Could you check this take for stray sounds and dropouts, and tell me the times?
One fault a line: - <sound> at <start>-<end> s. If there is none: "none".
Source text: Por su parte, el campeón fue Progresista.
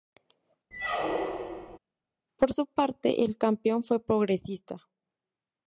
- squeak at 0.7-1.8 s